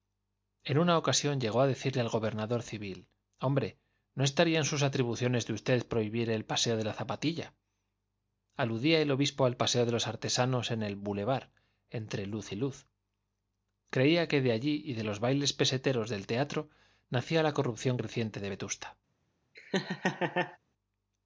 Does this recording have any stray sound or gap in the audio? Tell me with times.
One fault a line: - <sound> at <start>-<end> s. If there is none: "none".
- laugh at 19.5-20.6 s